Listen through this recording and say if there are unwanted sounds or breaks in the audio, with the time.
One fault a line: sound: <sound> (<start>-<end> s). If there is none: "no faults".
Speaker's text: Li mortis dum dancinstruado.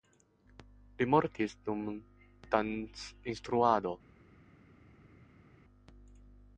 no faults